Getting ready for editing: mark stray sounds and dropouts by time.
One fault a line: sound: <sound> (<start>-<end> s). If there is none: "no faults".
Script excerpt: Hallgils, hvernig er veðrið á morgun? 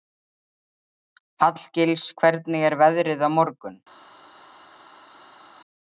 no faults